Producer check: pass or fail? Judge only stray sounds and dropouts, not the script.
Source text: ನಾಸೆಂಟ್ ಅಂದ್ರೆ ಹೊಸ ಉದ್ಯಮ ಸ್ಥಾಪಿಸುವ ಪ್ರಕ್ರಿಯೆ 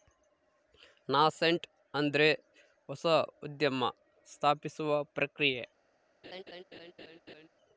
fail